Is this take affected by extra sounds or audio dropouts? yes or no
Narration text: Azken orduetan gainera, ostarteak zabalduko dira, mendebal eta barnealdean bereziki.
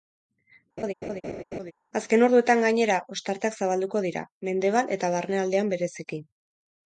yes